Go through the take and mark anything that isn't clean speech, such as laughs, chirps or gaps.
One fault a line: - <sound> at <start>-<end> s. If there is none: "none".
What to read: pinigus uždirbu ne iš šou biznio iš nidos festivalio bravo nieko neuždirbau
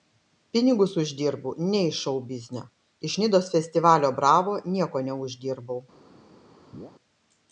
- chirp at 6.7-6.9 s